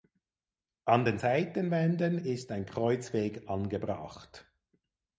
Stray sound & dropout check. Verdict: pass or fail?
pass